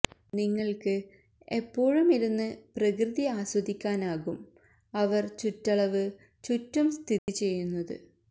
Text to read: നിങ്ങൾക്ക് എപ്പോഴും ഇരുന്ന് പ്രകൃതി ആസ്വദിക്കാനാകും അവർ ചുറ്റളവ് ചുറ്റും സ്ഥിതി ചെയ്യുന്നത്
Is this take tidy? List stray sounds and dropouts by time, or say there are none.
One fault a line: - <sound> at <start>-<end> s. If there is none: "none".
- dropout at 7.2-7.3 s